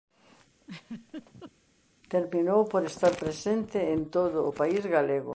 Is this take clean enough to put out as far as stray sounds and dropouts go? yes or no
no